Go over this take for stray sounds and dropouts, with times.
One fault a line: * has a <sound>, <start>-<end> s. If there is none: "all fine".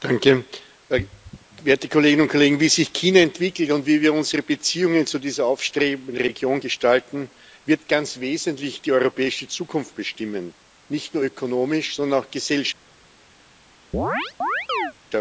* has a chirp, 13.9-14.9 s